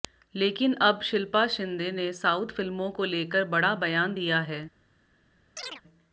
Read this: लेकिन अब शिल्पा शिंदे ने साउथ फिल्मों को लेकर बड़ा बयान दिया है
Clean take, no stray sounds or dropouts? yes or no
no